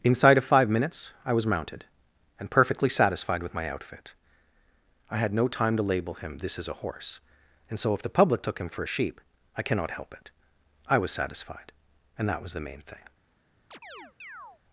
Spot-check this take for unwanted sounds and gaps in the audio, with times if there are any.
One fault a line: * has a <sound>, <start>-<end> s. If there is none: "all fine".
* has a chirp, 13.7-14.6 s